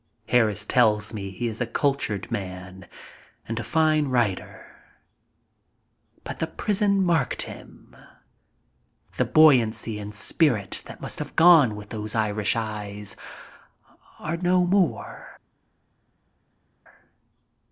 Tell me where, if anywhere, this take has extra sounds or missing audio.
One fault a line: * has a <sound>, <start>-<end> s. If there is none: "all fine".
all fine